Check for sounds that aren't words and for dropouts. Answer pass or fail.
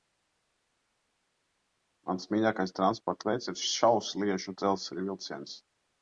pass